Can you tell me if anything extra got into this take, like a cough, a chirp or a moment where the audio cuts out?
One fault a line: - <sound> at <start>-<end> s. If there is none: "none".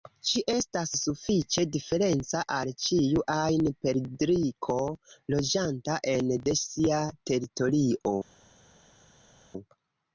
none